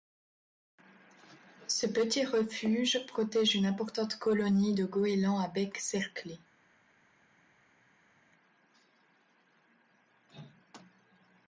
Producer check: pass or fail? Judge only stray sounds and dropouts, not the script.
pass